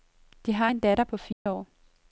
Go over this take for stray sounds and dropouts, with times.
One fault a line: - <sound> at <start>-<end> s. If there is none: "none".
- dropout at 1.3-1.5 s